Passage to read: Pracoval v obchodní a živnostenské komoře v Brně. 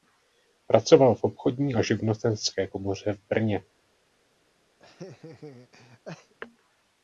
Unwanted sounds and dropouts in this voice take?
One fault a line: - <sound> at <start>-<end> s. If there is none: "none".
- laugh at 4.8-6.3 s